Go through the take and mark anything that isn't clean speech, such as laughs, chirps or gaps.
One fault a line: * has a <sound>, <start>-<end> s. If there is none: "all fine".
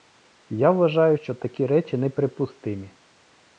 all fine